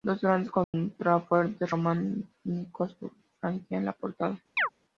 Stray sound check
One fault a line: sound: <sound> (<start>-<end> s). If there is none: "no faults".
sound: dropout (0.6-0.7 s)
sound: chirp (4.6-4.7 s)